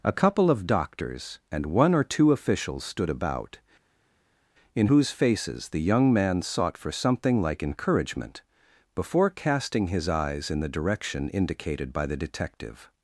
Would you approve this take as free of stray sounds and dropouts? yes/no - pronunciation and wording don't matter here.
yes